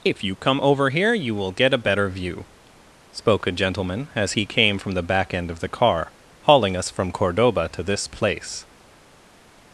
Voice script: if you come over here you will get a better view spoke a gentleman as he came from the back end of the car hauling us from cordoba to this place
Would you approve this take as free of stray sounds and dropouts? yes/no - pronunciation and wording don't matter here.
yes